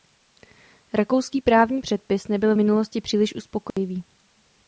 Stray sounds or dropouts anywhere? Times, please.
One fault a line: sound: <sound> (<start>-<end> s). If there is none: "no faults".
sound: dropout (3.7-3.8 s)